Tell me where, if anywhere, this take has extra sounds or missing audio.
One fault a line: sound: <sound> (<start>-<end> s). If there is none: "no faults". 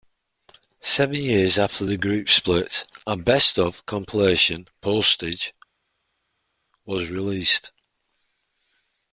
no faults